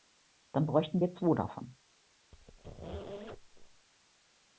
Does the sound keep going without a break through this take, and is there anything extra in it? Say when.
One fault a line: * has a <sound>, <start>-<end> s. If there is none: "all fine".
* has a squeak, 2.3-3.9 s